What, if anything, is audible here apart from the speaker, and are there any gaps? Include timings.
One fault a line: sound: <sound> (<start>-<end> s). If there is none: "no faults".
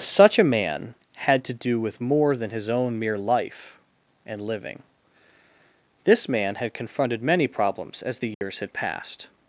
sound: dropout (8.3-8.4 s)